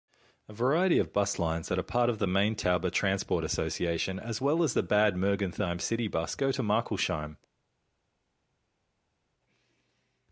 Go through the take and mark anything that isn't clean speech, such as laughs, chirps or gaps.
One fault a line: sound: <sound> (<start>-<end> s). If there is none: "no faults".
no faults